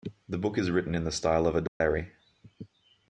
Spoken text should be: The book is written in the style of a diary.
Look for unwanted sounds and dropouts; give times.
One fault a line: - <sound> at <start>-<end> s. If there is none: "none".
- dropout at 1.7-1.8 s